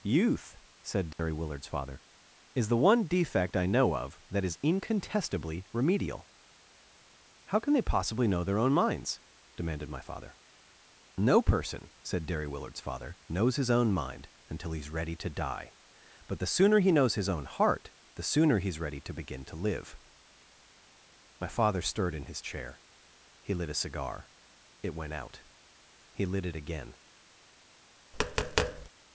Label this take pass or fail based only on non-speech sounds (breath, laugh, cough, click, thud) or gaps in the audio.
fail